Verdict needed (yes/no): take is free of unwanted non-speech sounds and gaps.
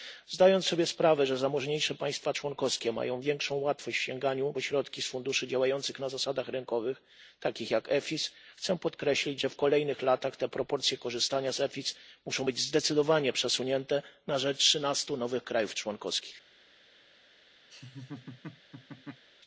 no